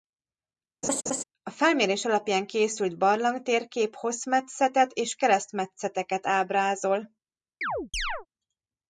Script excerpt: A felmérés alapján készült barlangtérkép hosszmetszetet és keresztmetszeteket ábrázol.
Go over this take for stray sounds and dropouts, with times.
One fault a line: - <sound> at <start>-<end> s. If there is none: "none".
- laugh at 0.8-1.2 s
- chirp at 7.6-8.3 s